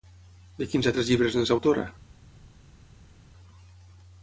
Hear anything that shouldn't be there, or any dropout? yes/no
no